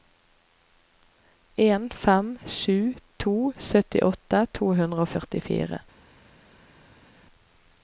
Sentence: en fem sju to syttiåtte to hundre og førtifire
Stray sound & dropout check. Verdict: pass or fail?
pass